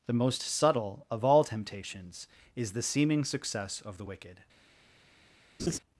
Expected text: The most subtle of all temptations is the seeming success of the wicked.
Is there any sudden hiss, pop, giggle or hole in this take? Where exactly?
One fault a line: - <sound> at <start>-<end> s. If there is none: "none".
- laugh at 5.6-5.8 s